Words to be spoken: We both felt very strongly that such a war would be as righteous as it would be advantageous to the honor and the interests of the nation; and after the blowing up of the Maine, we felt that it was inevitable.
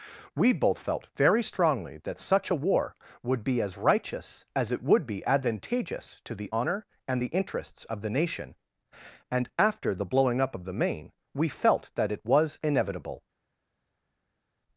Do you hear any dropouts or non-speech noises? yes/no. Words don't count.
no